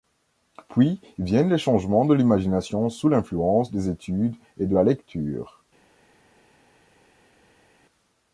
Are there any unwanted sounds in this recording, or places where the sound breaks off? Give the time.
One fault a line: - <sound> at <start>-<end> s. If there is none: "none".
none